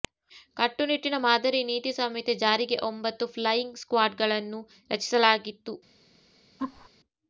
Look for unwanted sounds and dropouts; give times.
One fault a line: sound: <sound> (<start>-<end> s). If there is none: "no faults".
sound: laugh (6.6-6.9 s)